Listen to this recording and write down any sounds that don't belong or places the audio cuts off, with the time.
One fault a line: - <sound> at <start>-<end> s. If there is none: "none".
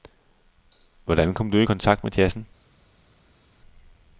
none